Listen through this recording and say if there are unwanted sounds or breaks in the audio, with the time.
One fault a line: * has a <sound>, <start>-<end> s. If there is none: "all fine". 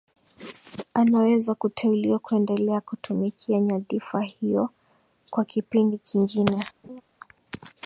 * has a laugh, 6.8-7.0 s